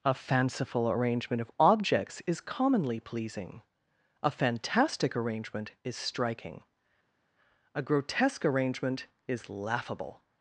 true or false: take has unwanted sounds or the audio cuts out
false